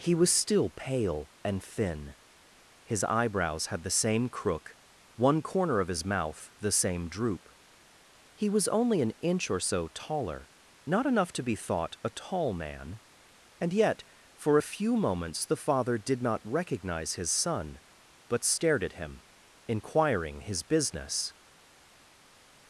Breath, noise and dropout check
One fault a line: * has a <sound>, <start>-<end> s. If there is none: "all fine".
all fine